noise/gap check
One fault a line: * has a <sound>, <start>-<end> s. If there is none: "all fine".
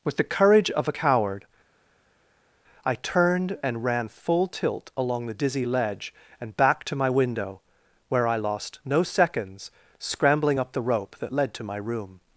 all fine